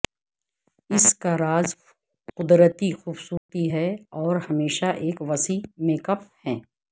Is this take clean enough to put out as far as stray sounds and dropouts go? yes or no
no